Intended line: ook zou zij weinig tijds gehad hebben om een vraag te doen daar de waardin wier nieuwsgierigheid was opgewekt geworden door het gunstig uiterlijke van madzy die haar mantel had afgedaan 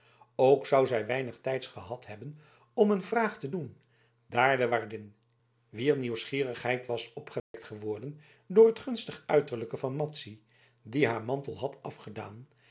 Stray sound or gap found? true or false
true